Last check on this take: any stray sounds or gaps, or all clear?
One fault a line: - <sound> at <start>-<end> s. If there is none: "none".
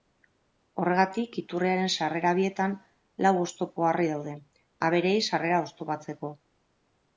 none